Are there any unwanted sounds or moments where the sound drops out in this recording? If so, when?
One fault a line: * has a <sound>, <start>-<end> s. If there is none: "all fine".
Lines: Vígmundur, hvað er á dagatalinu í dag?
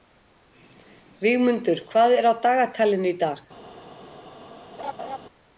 * has a laugh, 4.8-5.2 s